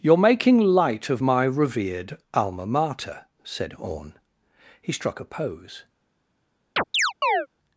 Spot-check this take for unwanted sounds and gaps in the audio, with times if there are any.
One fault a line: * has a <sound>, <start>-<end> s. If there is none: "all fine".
* has a chirp, 6.8-7.5 s